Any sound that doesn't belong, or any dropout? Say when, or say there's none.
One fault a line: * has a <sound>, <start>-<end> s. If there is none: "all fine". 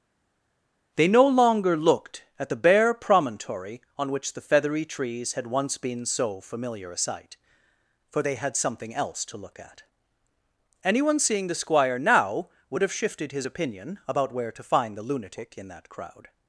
all fine